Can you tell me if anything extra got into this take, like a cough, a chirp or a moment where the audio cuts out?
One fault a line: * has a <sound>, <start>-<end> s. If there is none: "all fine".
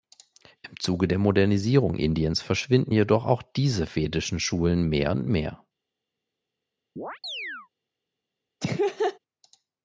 * has a chirp, 7.0-7.7 s
* has a laugh, 8.6-9.2 s